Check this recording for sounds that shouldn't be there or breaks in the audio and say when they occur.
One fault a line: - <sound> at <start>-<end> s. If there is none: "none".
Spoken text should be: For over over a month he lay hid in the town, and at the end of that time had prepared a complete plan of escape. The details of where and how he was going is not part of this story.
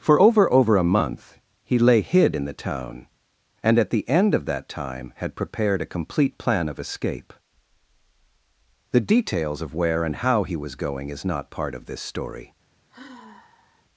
- sigh at 12.9-13.9 s